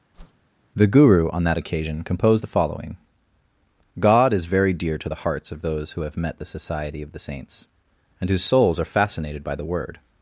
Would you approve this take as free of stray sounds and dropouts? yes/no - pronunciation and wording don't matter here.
no